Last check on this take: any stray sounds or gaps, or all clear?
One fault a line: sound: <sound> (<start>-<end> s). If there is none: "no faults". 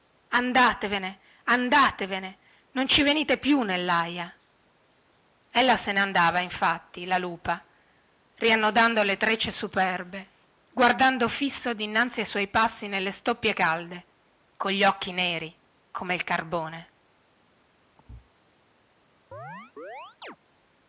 sound: thud (18.0-18.3 s)
sound: chirp (19.3-20.4 s)